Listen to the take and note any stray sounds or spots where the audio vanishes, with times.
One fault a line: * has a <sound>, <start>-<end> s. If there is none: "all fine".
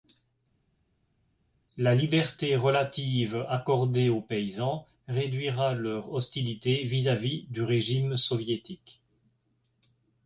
all fine